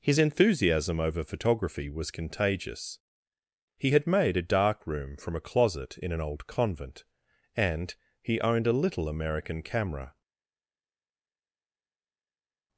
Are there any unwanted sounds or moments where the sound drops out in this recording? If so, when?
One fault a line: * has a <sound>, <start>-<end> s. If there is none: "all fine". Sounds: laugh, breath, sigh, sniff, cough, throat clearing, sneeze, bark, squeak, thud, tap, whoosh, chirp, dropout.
all fine